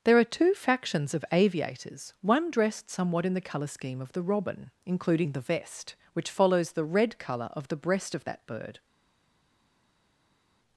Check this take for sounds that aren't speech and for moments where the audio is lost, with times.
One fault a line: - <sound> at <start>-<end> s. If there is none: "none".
none